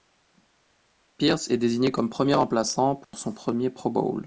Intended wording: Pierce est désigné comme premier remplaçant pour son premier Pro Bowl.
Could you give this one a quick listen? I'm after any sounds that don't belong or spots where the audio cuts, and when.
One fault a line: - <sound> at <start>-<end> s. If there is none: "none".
- dropout at 3.0-3.1 s